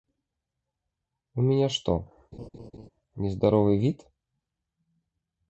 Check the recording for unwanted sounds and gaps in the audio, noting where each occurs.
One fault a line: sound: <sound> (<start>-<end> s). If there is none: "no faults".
sound: laugh (2.3-2.9 s)